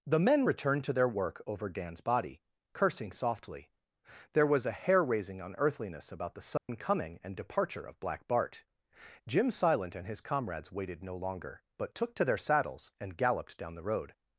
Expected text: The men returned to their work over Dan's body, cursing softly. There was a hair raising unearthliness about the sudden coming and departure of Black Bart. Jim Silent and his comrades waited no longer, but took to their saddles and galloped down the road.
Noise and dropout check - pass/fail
fail